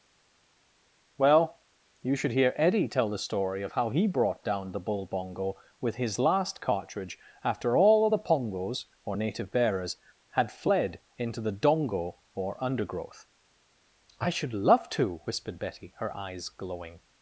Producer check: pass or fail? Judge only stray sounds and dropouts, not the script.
pass